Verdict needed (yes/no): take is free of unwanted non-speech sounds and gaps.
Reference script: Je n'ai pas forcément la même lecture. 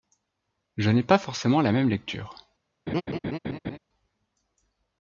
no